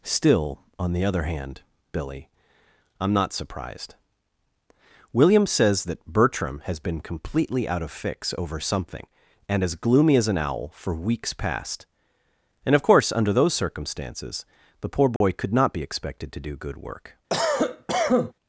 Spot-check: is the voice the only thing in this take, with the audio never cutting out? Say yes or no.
no